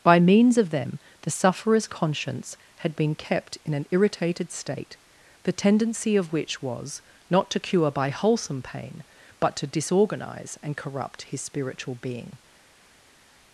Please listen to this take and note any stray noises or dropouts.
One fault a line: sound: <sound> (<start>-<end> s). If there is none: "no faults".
no faults